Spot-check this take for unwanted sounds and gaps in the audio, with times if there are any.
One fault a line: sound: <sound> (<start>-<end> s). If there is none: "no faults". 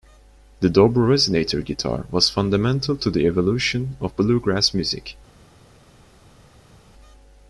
no faults